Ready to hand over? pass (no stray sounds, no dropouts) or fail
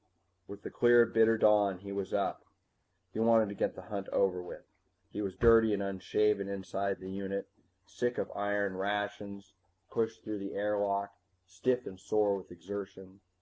pass